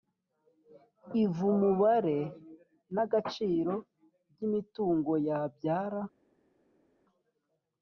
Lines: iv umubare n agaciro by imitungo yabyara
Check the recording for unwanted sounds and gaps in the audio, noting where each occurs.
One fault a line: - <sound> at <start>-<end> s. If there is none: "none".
none